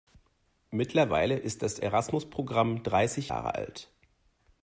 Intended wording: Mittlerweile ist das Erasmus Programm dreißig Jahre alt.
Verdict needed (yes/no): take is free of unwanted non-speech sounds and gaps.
yes